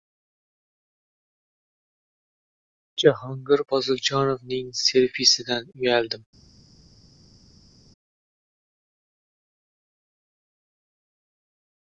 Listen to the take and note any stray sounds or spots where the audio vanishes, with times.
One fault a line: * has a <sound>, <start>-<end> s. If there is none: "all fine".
all fine